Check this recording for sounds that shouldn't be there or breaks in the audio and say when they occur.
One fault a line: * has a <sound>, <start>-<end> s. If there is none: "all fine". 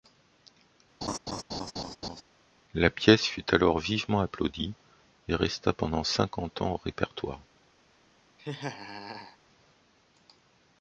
* has a laugh, 1.0-2.2 s
* has a laugh, 8.4-9.4 s